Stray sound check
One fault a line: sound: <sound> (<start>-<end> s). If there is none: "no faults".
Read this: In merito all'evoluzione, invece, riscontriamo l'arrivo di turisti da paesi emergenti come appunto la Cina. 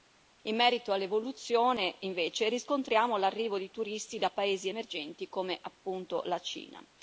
no faults